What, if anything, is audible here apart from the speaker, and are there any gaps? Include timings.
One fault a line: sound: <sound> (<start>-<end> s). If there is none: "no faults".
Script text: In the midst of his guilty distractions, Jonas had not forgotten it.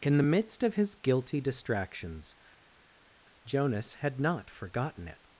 no faults